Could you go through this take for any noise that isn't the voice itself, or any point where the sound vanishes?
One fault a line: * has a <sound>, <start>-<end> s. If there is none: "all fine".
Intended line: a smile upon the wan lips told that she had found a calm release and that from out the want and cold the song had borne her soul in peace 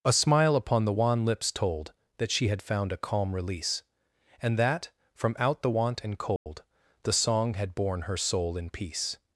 * has a dropout, 6.4-6.5 s